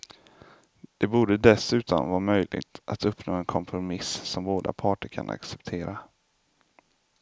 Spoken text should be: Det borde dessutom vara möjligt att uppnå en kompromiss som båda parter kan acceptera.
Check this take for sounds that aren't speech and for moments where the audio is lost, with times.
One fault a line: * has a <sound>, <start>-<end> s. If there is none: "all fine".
all fine